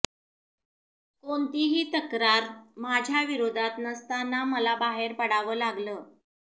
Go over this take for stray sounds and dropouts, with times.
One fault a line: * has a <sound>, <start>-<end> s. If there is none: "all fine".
all fine